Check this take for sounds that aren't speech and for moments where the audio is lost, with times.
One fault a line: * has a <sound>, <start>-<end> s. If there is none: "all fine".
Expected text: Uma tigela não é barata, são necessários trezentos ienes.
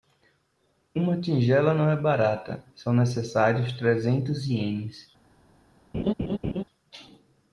* has a laugh, 5.9-6.6 s